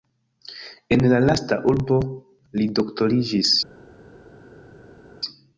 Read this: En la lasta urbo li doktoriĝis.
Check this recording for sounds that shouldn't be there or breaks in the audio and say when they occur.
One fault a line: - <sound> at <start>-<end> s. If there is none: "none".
none